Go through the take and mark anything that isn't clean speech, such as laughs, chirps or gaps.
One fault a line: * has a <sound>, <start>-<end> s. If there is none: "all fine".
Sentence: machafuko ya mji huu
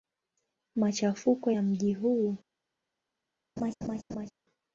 * has a laugh, 3.6-4.3 s